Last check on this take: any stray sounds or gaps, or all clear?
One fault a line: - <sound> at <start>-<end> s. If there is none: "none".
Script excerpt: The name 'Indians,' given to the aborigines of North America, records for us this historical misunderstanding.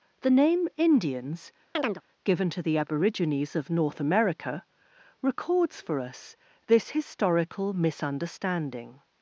- chirp at 1.7-2.0 s